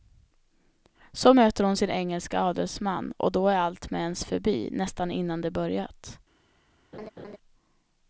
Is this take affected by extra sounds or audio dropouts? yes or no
yes